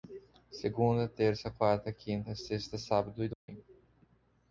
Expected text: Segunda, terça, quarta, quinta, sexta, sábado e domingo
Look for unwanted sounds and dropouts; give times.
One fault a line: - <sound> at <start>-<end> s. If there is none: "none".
- dropout at 3.3-3.5 s